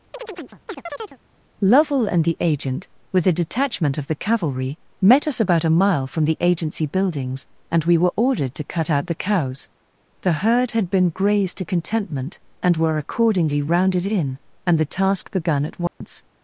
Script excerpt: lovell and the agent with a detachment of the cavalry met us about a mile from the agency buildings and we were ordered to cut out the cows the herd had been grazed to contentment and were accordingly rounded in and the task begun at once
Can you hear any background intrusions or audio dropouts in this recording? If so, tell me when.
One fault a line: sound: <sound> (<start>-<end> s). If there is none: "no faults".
sound: chirp (0.1-1.2 s)
sound: dropout (15.9-16.0 s)